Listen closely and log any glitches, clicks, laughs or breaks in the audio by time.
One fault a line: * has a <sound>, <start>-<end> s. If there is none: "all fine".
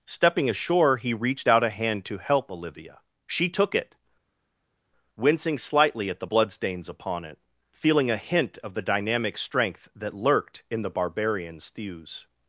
all fine